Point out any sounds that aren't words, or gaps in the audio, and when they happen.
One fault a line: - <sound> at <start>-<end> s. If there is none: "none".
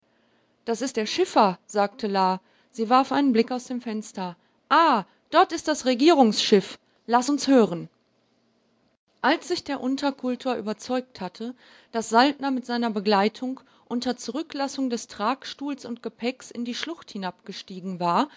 none